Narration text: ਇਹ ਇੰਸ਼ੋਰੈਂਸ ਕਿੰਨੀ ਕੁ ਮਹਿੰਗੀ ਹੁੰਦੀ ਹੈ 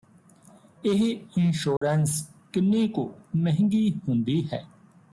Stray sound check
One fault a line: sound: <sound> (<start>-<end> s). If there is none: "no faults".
sound: dropout (1.8-1.8 s)